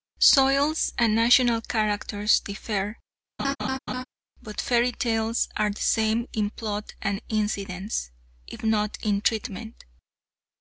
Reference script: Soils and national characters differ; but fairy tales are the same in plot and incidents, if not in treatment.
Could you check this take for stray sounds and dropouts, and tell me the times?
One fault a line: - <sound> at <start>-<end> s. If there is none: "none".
- laugh at 3.4-4.1 s